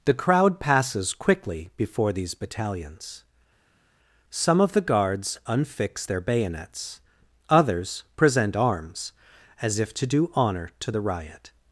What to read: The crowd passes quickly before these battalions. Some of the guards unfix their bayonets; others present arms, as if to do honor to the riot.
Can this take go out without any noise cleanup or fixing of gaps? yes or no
yes